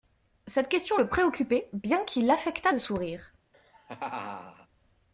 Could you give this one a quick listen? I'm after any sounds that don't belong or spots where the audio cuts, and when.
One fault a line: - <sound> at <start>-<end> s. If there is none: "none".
- laugh at 3.5-4.7 s